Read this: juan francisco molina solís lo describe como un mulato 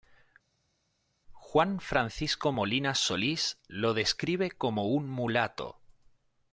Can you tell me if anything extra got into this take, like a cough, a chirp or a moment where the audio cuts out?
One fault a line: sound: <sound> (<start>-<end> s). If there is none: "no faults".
no faults